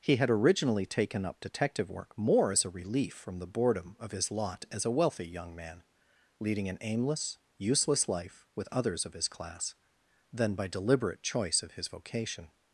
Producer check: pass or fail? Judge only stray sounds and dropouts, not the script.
pass